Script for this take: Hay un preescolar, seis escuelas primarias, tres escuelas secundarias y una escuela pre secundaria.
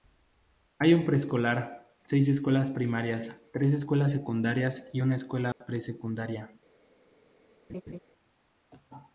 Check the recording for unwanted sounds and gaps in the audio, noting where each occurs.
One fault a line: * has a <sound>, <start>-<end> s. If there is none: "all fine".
* has a dropout, 5.5-5.6 s
* has a laugh, 7.7-8.0 s